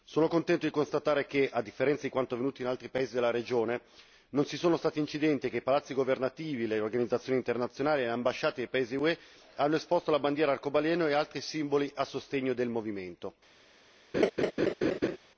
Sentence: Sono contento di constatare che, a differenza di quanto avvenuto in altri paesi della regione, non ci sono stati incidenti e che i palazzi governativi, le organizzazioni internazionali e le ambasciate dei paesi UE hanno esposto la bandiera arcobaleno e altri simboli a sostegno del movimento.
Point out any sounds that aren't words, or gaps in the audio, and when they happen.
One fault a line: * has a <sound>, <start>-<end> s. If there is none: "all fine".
* has a laugh, 14.1-15.2 s